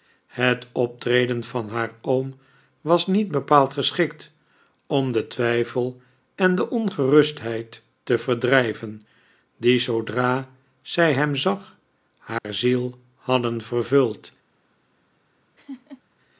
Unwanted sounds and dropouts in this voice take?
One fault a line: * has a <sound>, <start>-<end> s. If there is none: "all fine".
* has a dropout, 12.4-12.4 s
* has a laugh, 15.6-16.0 s